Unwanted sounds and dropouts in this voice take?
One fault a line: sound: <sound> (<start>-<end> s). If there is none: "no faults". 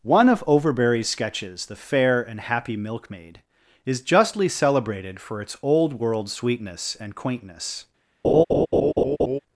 sound: laugh (8.2-9.4 s)